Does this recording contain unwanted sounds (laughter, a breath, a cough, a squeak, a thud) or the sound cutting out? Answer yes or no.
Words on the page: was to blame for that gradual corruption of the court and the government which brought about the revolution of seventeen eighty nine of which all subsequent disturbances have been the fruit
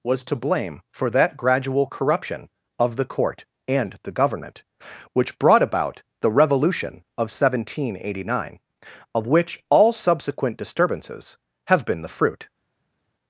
no